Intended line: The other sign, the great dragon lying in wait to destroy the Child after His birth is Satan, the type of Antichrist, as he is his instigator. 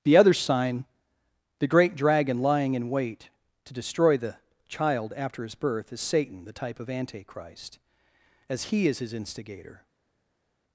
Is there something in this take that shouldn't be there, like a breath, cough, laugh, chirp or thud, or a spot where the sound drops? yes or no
no